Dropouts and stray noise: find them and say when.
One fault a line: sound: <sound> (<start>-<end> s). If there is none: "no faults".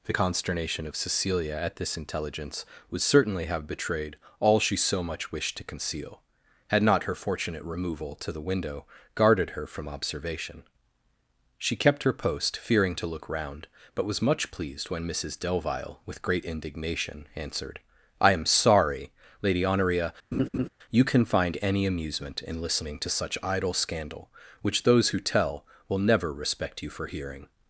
sound: laugh (20.3-20.7 s)